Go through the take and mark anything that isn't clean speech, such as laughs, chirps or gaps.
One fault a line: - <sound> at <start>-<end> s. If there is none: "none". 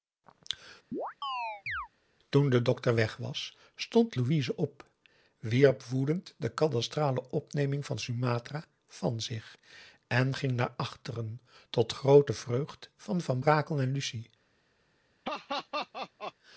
- chirp at 0.9-1.9 s
- laugh at 15.2-16.3 s